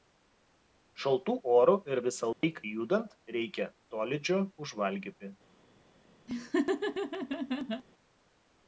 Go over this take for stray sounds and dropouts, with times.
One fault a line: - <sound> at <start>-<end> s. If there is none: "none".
- dropout at 2.3-2.4 s
- laugh at 6.3-7.8 s